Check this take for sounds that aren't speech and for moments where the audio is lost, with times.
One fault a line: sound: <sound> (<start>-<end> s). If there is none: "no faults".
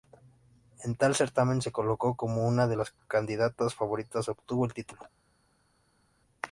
no faults